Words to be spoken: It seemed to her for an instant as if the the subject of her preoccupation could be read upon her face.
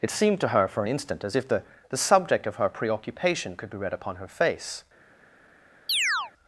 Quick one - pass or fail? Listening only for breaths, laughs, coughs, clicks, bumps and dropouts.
fail